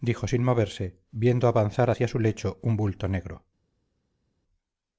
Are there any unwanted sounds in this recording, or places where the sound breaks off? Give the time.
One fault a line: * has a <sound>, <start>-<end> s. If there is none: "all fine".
all fine